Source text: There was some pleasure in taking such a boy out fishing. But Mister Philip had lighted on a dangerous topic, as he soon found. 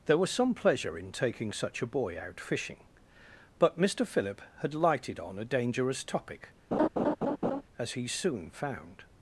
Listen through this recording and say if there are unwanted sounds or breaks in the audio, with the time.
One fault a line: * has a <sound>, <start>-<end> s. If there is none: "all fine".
* has a laugh, 6.7-7.6 s